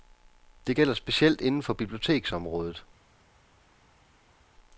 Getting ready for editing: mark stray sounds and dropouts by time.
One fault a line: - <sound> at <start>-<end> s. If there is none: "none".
none